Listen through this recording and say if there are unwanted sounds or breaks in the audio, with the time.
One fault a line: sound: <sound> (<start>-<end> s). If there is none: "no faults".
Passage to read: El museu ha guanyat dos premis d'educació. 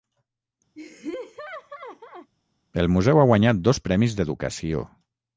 sound: laugh (0.8-2.3 s)